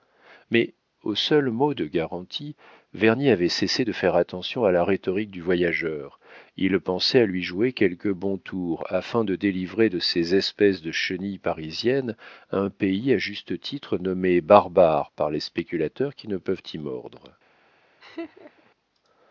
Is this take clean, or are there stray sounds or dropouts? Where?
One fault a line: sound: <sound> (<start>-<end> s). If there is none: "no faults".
sound: laugh (18.0-18.7 s)